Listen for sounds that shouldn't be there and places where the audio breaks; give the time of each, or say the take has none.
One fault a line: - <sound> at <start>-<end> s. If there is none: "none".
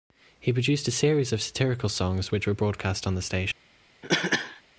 - cough at 4.0-4.6 s